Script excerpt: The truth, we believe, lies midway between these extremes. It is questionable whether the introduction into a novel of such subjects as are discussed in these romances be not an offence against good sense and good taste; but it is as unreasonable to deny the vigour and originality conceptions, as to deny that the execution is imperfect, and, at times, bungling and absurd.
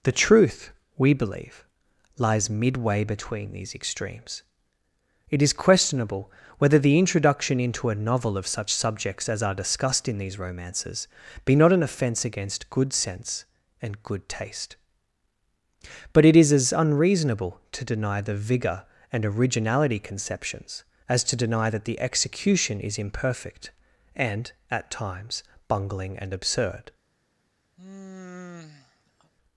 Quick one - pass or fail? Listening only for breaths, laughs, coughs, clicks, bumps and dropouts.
fail